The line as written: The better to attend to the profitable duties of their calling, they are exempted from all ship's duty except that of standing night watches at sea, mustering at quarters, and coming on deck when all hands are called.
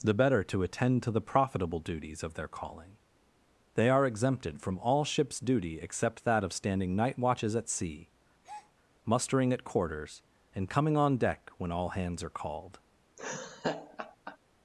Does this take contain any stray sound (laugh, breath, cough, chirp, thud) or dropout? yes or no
yes